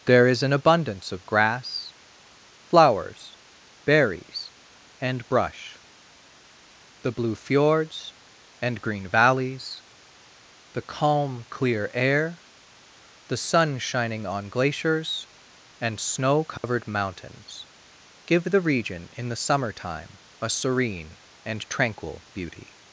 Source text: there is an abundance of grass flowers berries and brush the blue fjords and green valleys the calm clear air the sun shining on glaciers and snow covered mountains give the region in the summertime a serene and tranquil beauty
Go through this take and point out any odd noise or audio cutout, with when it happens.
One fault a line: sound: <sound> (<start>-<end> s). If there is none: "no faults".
sound: dropout (16.6-16.6 s)